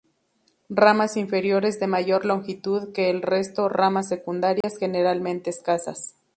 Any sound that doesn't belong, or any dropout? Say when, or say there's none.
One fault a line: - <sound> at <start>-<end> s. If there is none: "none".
- dropout at 4.6-4.6 s